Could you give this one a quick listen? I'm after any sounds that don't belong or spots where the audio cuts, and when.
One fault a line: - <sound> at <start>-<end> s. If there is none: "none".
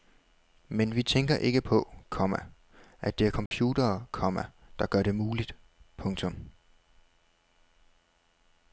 - dropout at 3.5-3.5 s